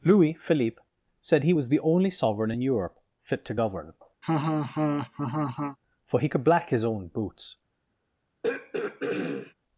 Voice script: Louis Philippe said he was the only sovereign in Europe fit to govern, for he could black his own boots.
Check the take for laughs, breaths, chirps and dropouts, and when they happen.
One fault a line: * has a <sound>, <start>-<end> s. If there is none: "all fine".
* has a laugh, 4.2-5.8 s
* has a throat clearing, 8.4-9.5 s